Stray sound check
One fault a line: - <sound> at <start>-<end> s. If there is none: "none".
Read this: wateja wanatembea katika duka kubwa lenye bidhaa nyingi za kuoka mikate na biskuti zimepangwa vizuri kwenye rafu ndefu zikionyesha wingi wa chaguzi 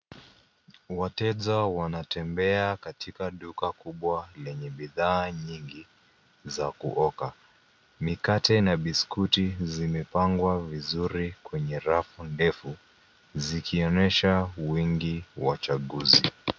none